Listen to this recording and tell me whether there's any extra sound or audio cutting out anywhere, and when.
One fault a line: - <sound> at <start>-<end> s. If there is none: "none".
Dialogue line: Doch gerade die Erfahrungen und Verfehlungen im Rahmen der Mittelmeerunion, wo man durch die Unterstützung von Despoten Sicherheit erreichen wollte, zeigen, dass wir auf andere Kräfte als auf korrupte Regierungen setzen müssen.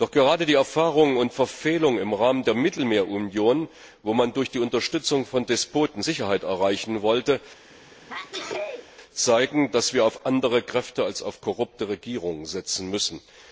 - sneeze at 7.7-8.9 s